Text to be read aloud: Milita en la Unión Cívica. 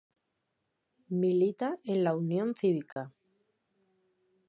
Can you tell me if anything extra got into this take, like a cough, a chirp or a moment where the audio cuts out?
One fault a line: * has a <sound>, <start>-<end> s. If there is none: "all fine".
* has a dropout, 2.9-3.0 s